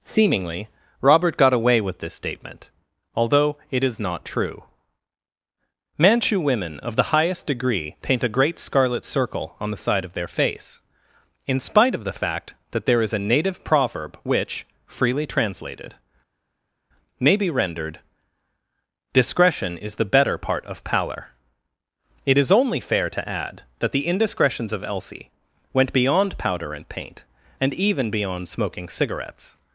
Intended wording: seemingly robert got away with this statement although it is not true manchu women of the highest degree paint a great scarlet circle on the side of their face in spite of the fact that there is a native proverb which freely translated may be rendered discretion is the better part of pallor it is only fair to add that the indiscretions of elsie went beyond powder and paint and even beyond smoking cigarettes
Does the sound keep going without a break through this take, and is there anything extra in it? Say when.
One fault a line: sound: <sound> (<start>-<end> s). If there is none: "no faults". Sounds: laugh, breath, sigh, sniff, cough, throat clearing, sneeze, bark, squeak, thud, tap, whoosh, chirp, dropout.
no faults